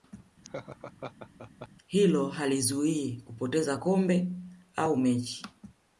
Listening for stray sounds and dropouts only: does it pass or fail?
fail